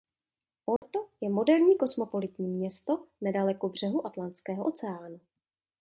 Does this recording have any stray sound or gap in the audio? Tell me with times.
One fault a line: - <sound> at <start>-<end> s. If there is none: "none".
- dropout at 0.8-0.8 s